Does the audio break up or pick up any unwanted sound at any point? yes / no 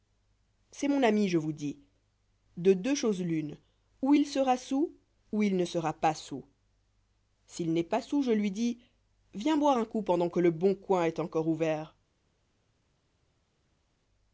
no